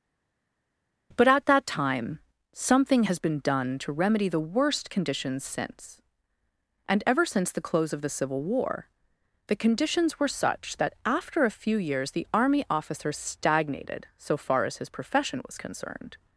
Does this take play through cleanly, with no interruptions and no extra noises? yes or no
yes